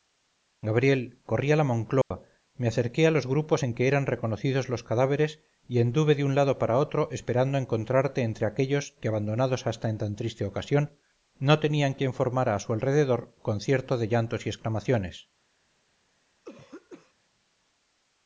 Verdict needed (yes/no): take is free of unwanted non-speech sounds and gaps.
no